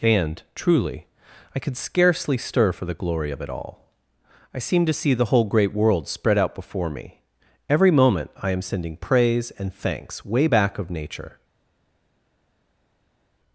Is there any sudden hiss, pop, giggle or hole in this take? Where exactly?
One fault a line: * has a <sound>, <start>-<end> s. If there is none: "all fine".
all fine